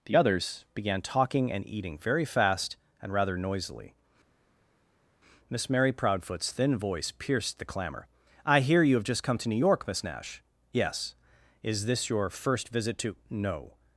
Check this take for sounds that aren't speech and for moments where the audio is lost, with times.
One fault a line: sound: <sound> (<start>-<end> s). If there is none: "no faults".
no faults